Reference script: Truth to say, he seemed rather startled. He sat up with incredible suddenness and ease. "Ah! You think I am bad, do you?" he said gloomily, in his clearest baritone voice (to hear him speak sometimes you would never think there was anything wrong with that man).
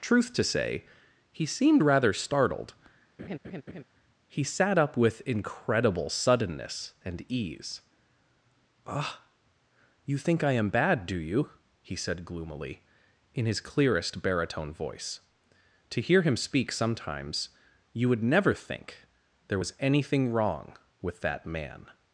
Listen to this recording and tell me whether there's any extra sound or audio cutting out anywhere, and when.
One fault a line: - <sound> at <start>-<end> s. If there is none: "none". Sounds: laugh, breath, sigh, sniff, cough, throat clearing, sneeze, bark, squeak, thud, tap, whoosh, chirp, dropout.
- laugh at 3.2-3.8 s